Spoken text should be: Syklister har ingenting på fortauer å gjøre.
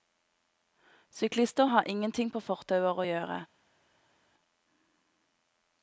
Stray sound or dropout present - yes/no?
no